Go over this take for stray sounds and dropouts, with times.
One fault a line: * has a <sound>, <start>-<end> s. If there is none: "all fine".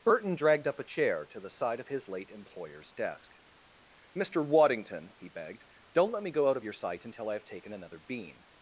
all fine